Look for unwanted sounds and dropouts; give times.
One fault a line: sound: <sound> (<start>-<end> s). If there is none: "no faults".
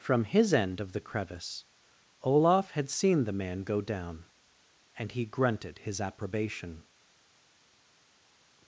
no faults